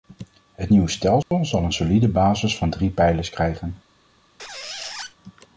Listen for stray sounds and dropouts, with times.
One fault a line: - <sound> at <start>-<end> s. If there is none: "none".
- dropout at 1.2-1.3 s
- squeak at 4.4-5.1 s